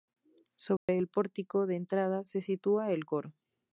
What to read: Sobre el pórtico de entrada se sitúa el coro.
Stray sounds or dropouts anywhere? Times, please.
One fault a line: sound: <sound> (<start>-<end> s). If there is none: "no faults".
sound: dropout (0.8-0.9 s)